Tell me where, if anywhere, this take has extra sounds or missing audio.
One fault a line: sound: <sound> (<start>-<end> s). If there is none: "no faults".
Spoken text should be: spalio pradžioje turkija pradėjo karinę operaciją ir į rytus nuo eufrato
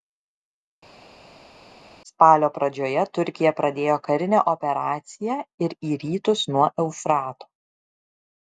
no faults